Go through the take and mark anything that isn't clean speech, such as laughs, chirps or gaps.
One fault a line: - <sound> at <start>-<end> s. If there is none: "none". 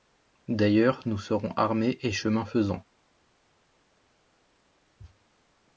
none